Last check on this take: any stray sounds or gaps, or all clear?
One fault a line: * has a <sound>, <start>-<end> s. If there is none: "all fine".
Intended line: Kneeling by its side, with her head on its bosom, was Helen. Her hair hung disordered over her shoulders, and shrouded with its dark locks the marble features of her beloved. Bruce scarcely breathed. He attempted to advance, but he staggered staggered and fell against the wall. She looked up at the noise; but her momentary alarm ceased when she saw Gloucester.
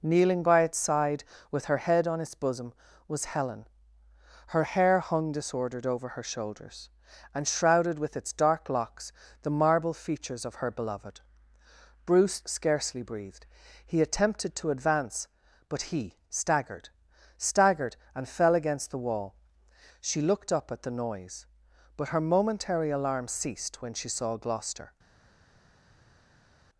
all fine